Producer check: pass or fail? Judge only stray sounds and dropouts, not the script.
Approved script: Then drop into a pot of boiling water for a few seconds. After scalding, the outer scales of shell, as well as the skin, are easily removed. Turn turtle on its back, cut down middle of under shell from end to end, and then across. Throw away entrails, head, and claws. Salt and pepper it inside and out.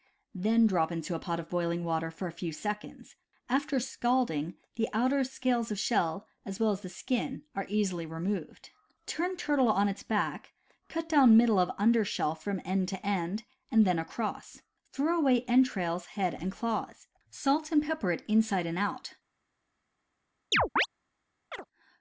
fail